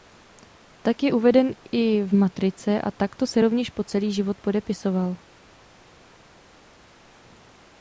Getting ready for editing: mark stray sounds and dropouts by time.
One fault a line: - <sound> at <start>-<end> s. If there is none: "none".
none